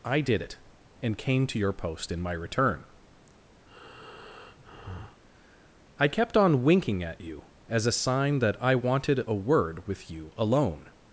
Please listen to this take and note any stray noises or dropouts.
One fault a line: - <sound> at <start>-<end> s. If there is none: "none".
- breath at 3.7-5.2 s